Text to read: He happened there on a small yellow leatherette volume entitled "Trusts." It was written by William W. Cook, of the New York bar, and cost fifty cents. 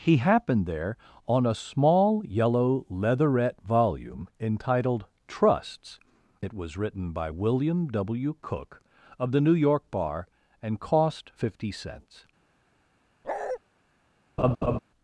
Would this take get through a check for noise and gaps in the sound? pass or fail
fail